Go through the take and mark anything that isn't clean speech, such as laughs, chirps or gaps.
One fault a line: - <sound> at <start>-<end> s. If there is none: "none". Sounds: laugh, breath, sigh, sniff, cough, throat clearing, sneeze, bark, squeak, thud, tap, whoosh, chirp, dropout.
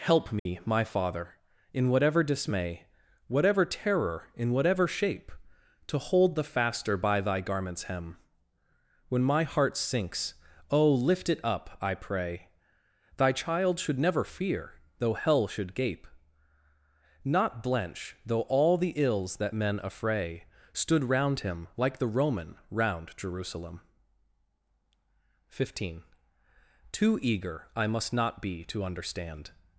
- dropout at 0.4-0.5 s